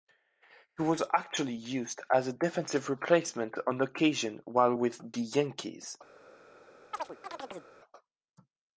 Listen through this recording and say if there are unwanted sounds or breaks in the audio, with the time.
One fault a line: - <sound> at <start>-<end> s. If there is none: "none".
- chirp at 6.9-7.7 s